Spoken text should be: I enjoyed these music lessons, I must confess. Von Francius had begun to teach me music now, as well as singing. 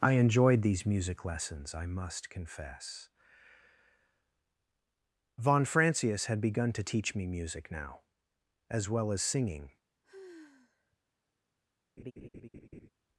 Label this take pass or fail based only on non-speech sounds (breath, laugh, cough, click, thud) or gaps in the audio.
fail